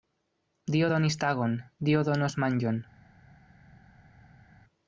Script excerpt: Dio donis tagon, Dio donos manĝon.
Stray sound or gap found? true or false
false